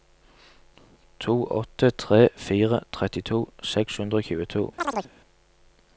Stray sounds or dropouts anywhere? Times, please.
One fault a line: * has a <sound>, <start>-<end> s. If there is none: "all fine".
* has a chirp, 4.8-5.1 s